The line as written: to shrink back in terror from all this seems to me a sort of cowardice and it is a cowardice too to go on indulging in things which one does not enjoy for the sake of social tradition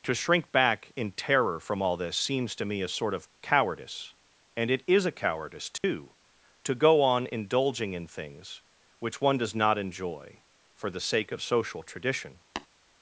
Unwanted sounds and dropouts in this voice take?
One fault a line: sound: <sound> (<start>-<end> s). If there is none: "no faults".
sound: dropout (5.8-5.8 s)
sound: tap (12.6-12.7 s)